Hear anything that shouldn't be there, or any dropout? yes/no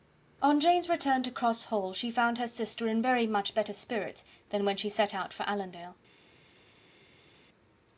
no